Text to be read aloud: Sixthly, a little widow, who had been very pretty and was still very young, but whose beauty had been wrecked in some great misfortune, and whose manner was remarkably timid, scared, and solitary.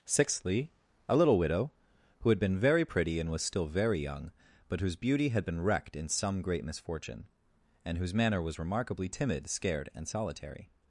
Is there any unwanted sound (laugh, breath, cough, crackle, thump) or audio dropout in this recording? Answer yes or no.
no